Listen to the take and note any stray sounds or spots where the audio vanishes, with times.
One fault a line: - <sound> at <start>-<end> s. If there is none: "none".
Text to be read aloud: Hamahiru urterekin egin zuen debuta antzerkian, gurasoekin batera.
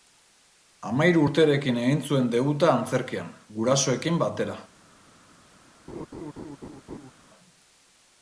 - laugh at 5.9-7.1 s